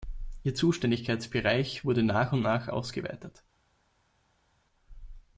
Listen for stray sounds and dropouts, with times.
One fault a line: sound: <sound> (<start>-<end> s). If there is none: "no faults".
no faults